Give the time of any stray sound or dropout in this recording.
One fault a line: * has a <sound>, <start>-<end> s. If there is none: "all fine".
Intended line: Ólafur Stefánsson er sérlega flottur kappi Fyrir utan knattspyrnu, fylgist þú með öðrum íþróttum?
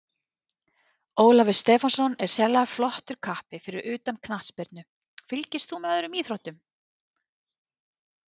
all fine